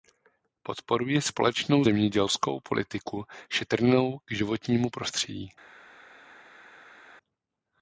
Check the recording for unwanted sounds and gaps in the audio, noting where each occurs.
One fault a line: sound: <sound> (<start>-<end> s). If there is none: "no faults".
no faults